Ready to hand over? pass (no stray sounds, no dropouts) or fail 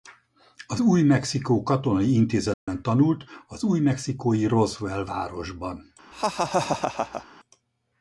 fail